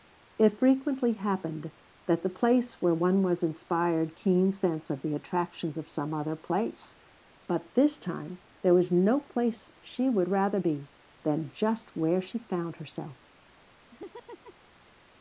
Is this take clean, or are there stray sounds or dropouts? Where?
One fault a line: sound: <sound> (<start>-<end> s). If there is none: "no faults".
sound: laugh (13.9-14.7 s)